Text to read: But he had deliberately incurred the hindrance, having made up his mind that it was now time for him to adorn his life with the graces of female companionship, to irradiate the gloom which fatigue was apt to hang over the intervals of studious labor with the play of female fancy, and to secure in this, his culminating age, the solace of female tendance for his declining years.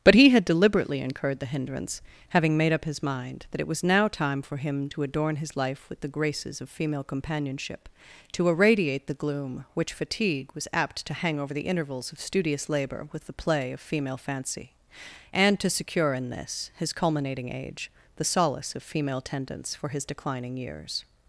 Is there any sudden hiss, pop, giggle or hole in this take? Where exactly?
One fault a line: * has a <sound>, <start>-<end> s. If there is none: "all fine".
all fine